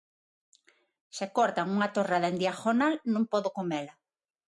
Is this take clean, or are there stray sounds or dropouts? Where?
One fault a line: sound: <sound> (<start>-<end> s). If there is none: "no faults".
no faults